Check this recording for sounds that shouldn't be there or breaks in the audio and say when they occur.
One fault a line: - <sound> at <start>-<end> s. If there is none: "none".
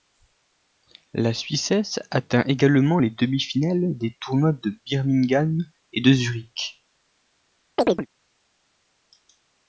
- chirp at 7.8-8.1 s